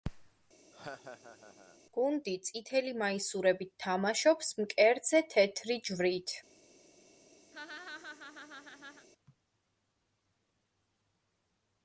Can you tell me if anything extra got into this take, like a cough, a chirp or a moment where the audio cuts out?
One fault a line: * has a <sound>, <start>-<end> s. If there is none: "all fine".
* has a laugh, 0.7-1.8 s
* has a laugh, 7.5-9.1 s